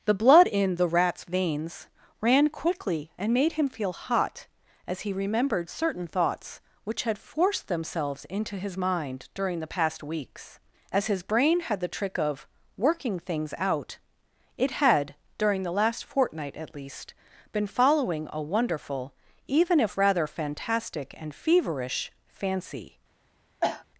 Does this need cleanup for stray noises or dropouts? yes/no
yes